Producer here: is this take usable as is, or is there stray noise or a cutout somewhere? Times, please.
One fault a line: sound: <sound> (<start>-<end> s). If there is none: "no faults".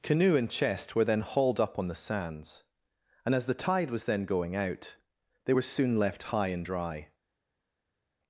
no faults